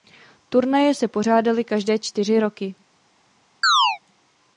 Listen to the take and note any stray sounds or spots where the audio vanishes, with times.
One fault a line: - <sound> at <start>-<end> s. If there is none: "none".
- chirp at 3.6-4.0 s